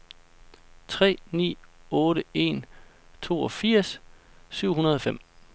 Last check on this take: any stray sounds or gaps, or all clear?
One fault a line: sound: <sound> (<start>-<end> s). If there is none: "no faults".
no faults